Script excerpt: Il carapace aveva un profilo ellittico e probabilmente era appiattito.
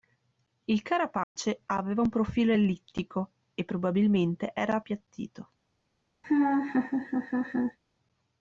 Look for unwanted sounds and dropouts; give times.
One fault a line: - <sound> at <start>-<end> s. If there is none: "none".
- dropout at 1.2-1.4 s
- laugh at 6.2-7.8 s